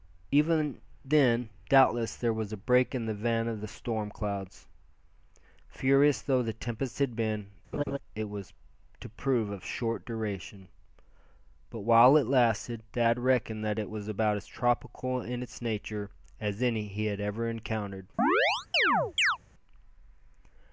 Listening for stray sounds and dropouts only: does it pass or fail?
fail